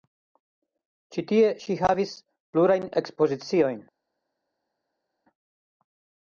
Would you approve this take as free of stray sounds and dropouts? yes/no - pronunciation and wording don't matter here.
yes